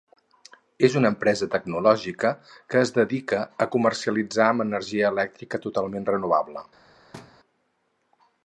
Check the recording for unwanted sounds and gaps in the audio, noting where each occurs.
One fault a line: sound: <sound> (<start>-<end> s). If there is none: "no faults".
sound: thud (7.1-7.4 s)